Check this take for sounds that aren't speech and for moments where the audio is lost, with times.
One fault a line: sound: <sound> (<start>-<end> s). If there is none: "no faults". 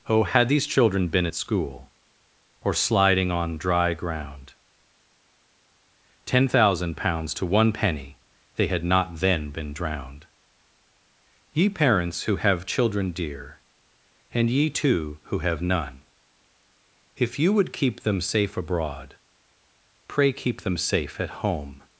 no faults